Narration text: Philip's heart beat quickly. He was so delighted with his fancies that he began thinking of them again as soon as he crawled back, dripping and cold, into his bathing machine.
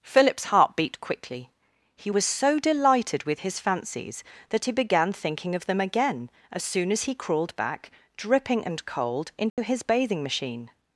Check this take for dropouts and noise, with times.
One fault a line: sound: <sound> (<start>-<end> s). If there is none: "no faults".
sound: dropout (9.5-9.6 s)